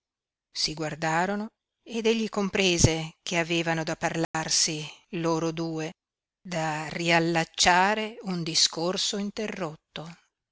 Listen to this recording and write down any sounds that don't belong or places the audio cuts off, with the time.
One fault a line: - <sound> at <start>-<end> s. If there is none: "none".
- dropout at 4.2-4.3 s